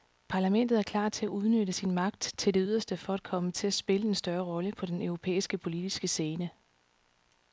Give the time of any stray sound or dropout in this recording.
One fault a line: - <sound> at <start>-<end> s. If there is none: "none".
none